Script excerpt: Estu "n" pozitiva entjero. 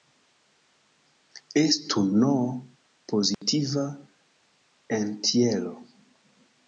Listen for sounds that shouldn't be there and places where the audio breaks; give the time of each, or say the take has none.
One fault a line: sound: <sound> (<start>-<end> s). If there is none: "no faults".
sound: dropout (3.3-3.4 s)